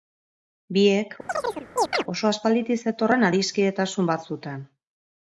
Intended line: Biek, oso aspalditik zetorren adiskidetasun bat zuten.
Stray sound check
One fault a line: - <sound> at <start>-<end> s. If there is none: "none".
- chirp at 1.3-2.0 s